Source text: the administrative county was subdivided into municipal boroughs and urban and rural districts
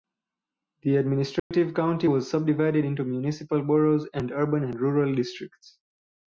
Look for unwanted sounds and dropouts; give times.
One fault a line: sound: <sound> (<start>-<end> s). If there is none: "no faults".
sound: dropout (1.4-1.5 s)